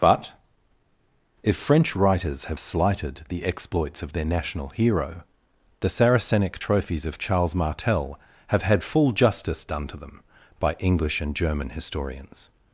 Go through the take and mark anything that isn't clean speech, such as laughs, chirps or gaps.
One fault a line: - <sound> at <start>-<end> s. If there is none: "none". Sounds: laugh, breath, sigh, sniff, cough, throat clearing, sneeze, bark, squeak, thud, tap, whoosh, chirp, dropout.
none